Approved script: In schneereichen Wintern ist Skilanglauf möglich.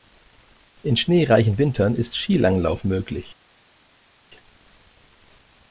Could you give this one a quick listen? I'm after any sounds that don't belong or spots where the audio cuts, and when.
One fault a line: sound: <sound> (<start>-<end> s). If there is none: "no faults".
no faults